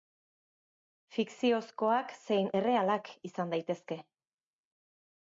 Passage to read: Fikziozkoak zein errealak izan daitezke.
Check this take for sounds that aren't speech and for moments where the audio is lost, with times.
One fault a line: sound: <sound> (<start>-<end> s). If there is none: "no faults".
no faults